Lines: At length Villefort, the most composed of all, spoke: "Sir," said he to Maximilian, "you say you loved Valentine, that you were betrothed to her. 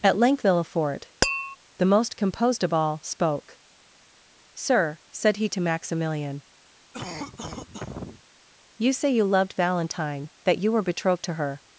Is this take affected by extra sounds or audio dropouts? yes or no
yes